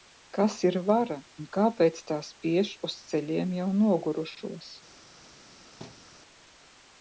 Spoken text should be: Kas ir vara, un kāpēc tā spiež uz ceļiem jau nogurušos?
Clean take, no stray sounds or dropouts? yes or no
no